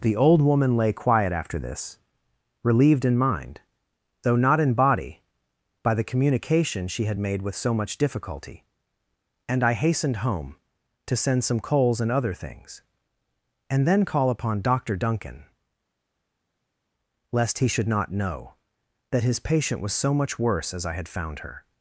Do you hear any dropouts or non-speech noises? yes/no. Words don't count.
no